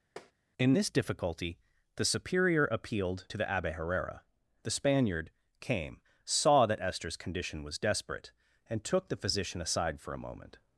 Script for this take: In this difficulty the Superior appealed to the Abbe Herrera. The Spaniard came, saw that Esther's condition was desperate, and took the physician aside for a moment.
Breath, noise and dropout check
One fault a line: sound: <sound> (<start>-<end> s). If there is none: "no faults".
sound: tap (0.2-0.3 s)